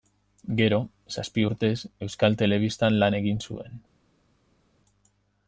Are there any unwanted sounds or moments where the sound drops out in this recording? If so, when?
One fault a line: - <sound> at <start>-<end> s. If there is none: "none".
none